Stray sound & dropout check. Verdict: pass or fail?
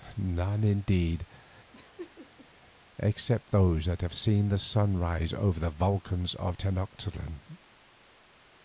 fail